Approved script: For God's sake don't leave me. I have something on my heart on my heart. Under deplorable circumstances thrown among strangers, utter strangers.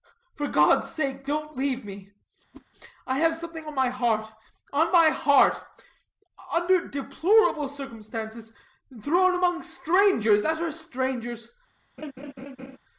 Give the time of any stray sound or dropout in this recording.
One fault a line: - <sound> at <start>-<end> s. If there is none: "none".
- whoosh at 2.5-2.7 s
- laugh at 12.0-12.8 s